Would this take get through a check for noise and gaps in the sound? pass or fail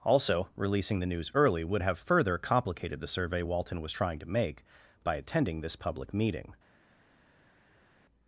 pass